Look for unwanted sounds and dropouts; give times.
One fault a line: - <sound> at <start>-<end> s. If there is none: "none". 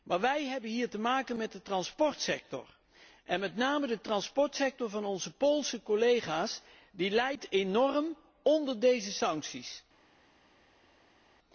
none